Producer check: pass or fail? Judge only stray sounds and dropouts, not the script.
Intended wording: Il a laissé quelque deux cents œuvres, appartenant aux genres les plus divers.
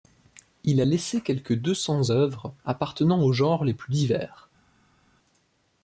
pass